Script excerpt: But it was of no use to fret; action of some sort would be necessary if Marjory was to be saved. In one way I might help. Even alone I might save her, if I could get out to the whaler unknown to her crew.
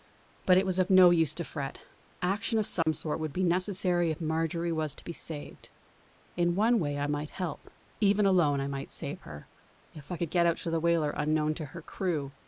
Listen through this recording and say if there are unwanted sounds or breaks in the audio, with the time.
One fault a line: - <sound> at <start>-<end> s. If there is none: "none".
- dropout at 2.8-2.9 s